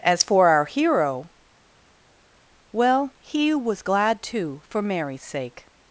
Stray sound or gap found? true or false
false